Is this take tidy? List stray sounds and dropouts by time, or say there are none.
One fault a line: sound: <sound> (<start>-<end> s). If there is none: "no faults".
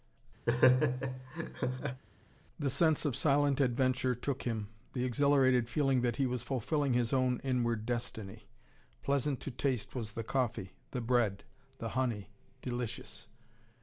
sound: laugh (0.5-2.0 s)